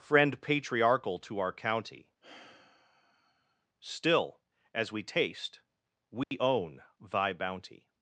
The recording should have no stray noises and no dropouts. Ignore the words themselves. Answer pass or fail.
fail